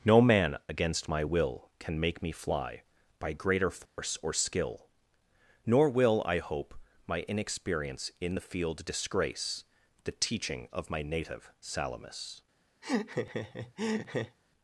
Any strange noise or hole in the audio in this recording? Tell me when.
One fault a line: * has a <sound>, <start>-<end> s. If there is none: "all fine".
* has a dropout, 3.9-4.0 s
* has a laugh, 12.8-14.4 s